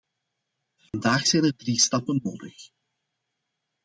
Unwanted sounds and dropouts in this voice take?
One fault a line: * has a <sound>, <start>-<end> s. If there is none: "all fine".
* has a dropout, 0.9-0.9 s